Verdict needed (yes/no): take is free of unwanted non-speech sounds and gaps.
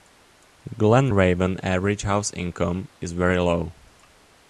yes